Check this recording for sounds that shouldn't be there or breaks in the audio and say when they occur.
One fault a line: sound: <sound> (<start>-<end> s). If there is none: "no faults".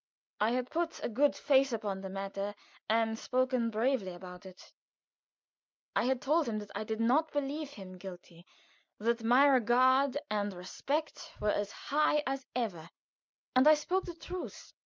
no faults